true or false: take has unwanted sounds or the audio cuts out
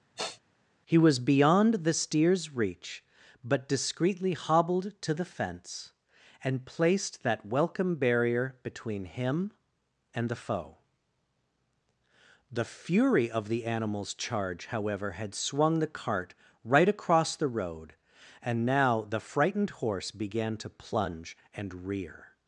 true